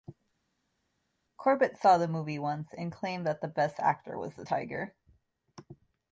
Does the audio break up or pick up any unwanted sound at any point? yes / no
no